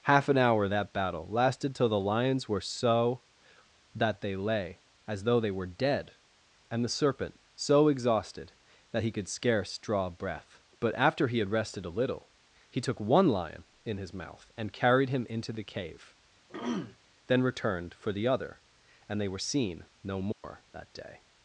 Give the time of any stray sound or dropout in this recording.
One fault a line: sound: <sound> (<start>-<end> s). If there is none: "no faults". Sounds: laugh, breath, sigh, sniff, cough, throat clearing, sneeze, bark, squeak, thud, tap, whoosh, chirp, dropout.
sound: throat clearing (16.5-17.0 s)
sound: dropout (20.3-20.4 s)